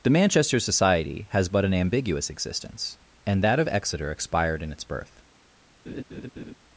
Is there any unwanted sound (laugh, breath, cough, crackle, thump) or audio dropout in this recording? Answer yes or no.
yes